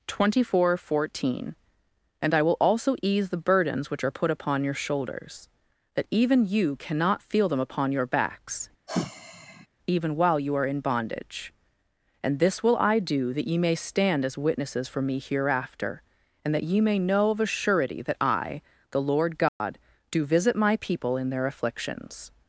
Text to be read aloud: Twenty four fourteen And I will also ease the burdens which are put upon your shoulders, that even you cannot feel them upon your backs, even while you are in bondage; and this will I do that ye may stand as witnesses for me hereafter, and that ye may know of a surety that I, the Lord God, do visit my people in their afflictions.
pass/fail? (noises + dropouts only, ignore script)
fail